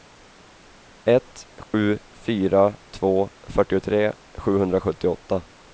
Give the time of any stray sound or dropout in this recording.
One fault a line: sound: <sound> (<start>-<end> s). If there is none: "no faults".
sound: dropout (1.6-1.7 s)